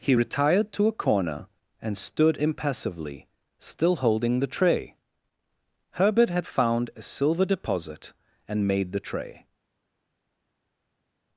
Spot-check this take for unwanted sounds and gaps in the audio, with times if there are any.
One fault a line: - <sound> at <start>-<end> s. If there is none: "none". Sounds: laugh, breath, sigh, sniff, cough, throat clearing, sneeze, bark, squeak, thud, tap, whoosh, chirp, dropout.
none